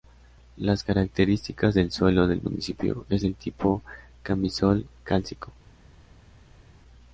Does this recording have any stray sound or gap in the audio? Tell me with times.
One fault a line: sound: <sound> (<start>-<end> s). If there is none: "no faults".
no faults